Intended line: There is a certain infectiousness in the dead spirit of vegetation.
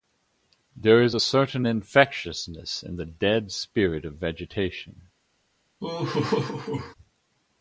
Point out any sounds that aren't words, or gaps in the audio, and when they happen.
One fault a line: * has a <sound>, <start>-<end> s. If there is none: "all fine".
* has a laugh, 5.8-6.9 s